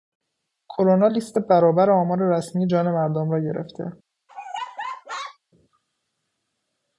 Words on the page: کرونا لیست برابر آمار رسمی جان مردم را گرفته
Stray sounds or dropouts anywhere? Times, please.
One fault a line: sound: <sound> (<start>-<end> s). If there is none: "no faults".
sound: laugh (4.3-5.4 s)